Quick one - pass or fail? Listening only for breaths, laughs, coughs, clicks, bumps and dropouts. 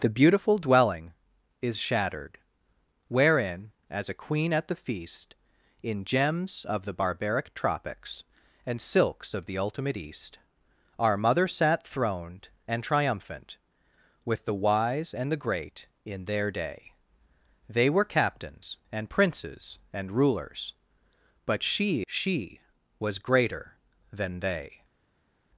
pass